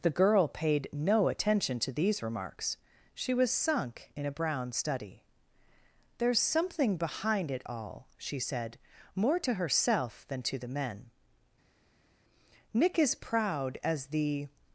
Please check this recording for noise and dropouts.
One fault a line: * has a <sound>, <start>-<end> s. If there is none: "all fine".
all fine